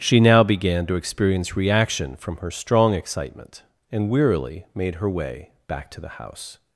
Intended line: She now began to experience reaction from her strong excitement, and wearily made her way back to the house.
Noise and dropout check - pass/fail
pass